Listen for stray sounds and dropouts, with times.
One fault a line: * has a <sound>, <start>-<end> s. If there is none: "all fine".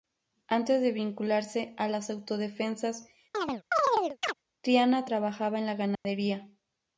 * has a chirp, 3.3-4.3 s
* has a dropout, 6.0-6.1 s